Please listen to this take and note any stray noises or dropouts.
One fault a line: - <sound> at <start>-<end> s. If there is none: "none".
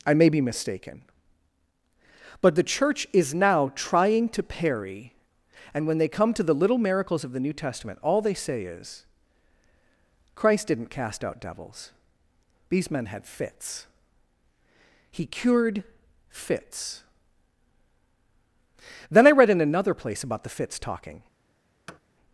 - thud at 21.9-22.0 s